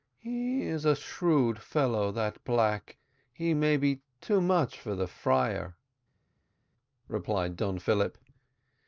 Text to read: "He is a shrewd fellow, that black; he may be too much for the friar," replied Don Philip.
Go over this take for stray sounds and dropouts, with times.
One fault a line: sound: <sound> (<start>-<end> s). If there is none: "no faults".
no faults